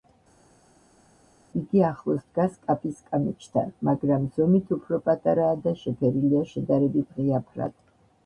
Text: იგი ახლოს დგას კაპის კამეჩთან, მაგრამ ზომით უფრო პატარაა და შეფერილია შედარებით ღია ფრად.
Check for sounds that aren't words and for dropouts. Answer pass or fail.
pass